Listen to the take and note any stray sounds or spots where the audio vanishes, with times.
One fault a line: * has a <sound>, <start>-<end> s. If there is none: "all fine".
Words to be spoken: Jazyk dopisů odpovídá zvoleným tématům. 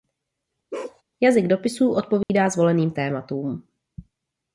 * has a bark, 0.7-1.0 s
* has a dropout, 2.2-2.3 s